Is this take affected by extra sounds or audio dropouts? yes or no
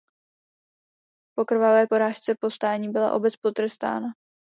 no